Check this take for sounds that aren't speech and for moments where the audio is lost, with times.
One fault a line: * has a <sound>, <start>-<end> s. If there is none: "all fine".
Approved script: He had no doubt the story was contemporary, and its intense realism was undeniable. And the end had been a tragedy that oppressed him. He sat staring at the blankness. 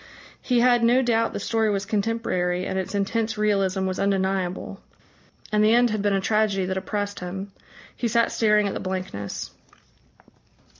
all fine